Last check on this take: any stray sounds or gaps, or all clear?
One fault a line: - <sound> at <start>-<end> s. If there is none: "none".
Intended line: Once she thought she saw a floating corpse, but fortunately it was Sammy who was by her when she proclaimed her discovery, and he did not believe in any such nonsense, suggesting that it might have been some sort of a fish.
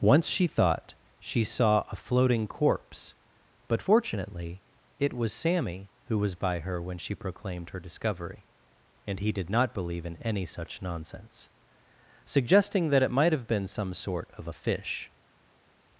none